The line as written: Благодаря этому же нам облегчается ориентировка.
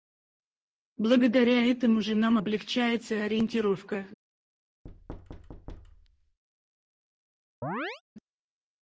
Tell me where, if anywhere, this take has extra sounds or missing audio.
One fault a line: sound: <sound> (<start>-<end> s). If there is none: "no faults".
sound: thud (4.8-6.4 s)
sound: chirp (7.6-8.0 s)